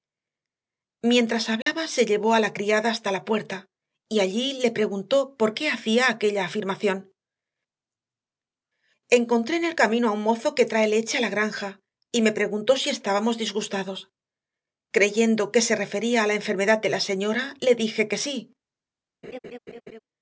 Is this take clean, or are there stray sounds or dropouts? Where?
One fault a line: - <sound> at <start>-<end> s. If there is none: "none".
- dropout at 1.6-1.7 s
- laugh at 19.2-20.0 s